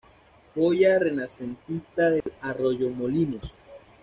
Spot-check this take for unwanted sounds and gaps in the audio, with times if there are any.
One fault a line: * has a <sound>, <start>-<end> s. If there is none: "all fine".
* has a dropout, 2.2-2.3 s